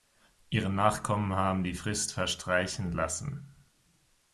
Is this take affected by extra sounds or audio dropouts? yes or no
no